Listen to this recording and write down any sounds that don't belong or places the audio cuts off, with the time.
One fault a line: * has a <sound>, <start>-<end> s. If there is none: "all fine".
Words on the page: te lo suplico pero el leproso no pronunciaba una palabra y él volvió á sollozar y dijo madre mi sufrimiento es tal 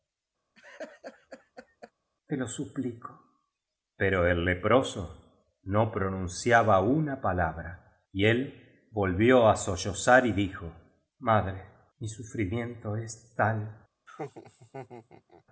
* has a laugh, 0.5-1.9 s
* has a laugh, 14.1-15.4 s